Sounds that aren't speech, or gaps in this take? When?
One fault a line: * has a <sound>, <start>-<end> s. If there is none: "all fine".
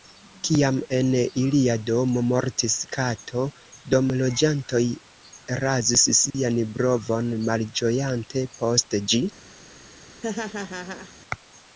* has a dropout, 6.3-6.3 s
* has a laugh, 10.2-11.1 s